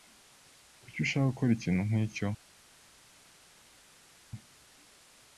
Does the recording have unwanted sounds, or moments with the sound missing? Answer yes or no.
no